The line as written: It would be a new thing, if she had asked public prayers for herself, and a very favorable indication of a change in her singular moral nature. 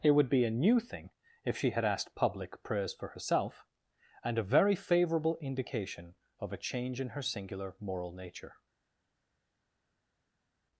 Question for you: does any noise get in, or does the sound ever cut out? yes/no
no